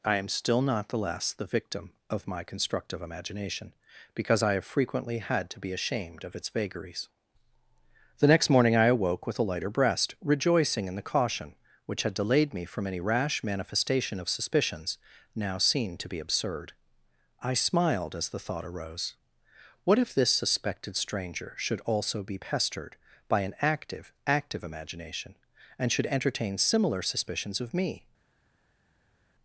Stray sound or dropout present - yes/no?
no